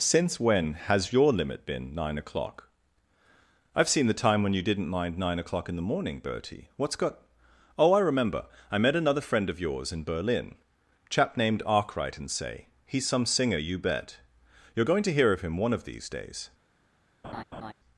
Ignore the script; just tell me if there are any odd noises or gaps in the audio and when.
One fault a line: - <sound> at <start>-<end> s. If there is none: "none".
- laugh at 17.2-17.7 s